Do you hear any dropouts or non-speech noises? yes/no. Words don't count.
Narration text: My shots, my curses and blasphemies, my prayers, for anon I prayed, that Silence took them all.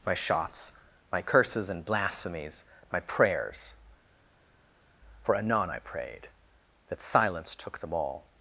no